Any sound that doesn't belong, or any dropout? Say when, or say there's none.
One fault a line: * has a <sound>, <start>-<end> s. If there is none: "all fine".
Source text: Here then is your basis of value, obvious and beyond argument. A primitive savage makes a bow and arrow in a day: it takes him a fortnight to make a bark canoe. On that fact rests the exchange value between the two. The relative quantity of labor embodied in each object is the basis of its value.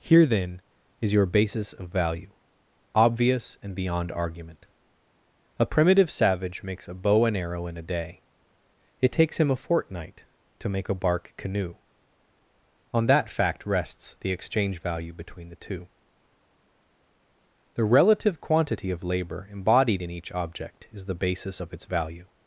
all fine